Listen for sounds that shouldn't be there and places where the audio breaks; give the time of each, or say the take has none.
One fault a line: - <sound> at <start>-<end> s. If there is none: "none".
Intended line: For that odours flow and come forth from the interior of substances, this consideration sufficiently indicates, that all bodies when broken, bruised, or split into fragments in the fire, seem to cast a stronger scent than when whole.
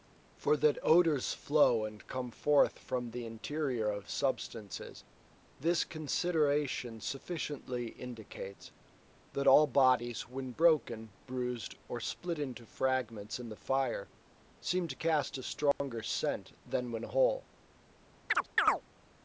- dropout at 15.7-15.8 s
- chirp at 18.3-18.8 s